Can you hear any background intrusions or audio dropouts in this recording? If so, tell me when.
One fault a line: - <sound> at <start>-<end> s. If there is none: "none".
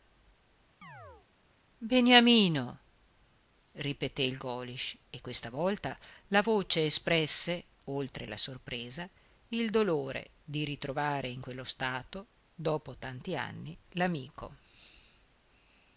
- chirp at 0.8-1.3 s